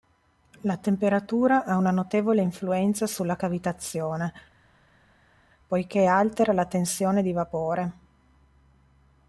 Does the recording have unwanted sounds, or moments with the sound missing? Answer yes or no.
no